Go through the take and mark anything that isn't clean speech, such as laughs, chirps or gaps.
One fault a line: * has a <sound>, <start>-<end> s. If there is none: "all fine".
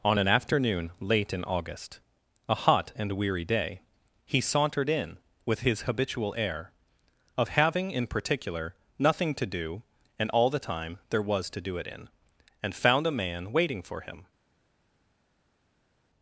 all fine